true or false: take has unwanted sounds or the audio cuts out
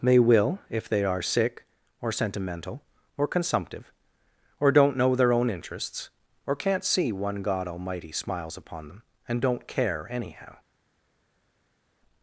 false